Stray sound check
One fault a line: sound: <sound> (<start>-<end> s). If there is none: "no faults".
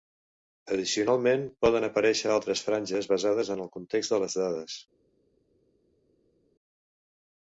no faults